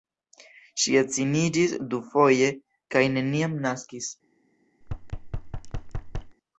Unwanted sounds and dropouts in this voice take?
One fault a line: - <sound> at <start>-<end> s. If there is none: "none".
- thud at 4.8-6.4 s